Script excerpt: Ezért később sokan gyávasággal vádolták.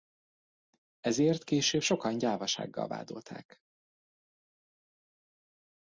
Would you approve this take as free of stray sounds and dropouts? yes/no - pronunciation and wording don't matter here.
yes